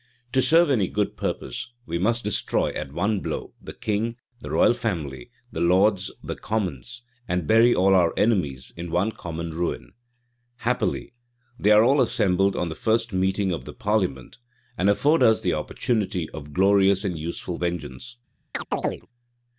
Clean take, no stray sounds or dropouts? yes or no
no